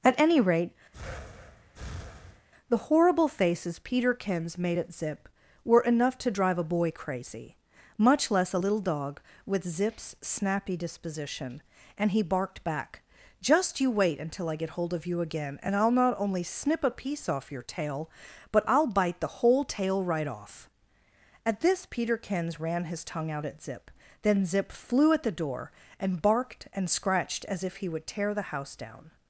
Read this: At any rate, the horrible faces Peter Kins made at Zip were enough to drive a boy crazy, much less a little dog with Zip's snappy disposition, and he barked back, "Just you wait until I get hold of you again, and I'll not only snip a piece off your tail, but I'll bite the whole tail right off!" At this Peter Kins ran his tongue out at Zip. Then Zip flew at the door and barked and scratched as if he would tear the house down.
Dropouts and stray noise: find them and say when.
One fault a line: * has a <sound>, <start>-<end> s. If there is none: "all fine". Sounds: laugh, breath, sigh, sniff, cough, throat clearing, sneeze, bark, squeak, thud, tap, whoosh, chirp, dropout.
* has a breath, 0.9-2.5 s